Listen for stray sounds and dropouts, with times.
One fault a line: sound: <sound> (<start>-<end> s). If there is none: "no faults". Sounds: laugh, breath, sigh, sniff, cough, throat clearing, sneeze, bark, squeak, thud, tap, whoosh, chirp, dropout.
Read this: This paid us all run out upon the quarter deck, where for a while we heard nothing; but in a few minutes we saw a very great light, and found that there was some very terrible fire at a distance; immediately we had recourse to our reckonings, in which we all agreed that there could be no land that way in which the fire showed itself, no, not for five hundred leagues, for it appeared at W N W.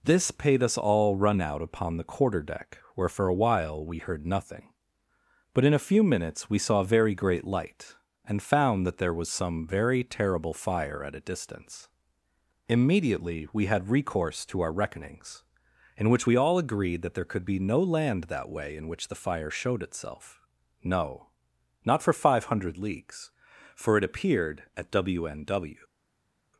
no faults